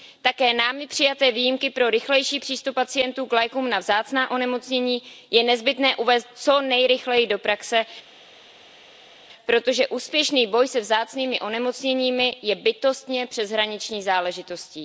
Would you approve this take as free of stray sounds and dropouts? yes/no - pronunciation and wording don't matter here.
yes